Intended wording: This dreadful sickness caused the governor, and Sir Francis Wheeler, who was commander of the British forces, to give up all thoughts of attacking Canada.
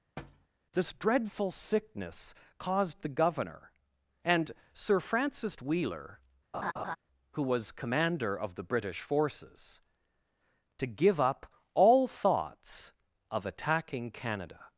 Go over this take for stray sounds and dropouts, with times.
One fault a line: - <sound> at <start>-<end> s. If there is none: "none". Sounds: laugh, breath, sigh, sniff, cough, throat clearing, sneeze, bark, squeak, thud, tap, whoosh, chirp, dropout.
- thud at 0.2-0.5 s
- laugh at 6.5-7.0 s